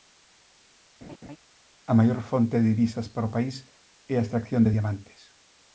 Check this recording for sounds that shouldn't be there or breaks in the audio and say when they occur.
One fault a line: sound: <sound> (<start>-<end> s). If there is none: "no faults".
sound: laugh (1.0-1.4 s)